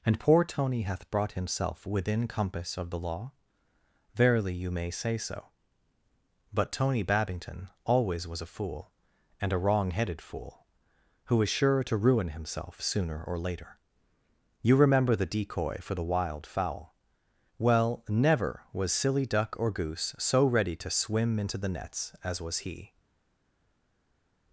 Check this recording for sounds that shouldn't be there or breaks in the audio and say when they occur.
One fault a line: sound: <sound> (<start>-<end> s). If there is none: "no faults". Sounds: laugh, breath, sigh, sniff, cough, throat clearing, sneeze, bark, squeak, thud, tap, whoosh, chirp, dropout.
no faults